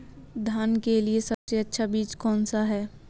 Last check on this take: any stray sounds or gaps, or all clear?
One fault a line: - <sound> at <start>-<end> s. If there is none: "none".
- dropout at 1.3-1.5 s